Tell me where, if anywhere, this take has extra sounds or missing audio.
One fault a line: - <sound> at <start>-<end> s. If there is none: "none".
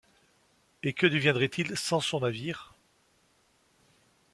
none